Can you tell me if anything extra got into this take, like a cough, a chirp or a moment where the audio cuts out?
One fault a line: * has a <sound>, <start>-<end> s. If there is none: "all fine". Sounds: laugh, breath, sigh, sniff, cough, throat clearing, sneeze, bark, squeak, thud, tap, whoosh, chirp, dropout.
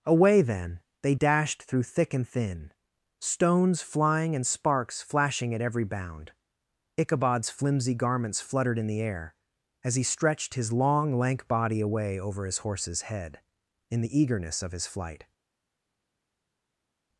all fine